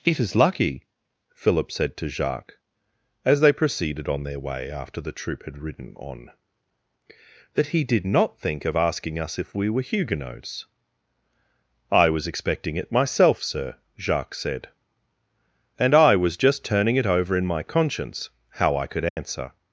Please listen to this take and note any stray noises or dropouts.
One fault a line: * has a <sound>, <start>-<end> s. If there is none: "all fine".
* has a dropout, 19.1-19.2 s